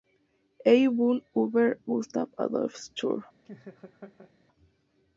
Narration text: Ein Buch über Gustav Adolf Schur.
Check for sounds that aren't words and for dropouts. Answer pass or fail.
fail